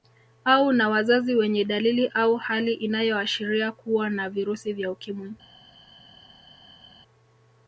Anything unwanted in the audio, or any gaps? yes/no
no